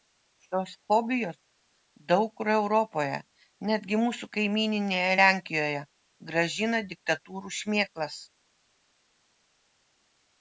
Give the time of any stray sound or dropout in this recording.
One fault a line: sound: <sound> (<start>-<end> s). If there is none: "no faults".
no faults